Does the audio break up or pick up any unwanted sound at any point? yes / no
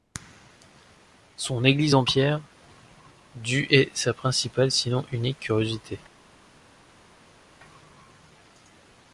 no